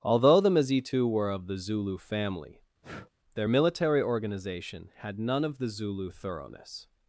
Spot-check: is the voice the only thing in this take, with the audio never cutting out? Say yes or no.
no